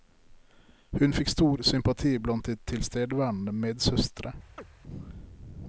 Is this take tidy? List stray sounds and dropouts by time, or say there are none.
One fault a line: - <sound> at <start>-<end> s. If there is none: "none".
- chirp at 4.6-4.7 s